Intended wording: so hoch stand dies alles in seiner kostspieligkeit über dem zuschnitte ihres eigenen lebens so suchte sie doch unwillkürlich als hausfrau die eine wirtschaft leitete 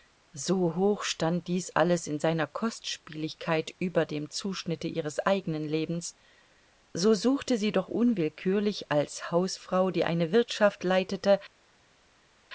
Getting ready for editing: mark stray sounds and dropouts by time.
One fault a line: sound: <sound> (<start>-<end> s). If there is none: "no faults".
no faults